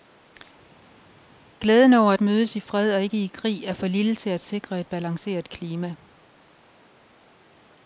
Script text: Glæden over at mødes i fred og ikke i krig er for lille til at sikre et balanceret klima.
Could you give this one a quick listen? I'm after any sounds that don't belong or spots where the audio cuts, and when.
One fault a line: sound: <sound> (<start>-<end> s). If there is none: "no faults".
no faults